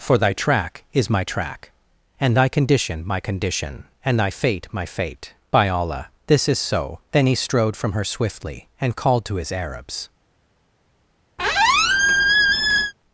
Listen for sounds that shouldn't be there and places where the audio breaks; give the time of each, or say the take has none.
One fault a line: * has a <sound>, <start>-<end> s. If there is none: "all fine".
* has a squeak, 11.4-12.9 s